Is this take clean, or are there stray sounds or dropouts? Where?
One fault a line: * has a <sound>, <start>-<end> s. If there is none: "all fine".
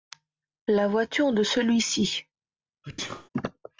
* has a sneeze, 2.8-3.3 s